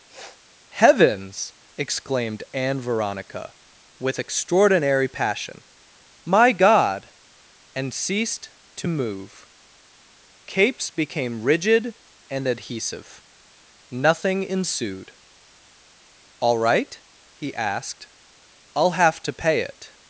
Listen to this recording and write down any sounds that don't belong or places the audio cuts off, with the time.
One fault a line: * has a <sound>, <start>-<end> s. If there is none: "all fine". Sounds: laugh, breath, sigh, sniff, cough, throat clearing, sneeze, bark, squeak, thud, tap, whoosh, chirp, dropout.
* has a sniff, 0.1-0.4 s